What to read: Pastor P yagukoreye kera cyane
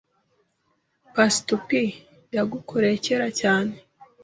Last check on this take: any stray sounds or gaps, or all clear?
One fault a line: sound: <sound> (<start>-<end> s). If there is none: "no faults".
no faults